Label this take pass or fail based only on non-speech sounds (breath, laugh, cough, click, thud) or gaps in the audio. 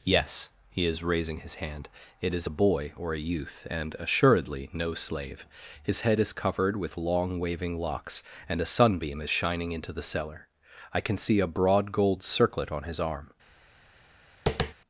fail